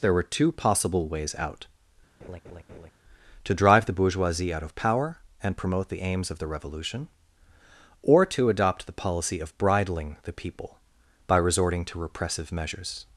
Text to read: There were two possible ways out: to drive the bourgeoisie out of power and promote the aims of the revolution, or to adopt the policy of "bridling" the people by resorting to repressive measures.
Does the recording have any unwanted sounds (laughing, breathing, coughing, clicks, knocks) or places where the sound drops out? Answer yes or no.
yes